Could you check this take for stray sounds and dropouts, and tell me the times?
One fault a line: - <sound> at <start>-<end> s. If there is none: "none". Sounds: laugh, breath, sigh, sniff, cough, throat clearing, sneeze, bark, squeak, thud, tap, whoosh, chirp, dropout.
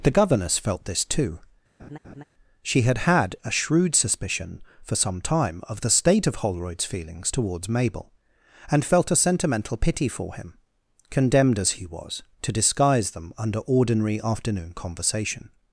- laugh at 1.8-2.2 s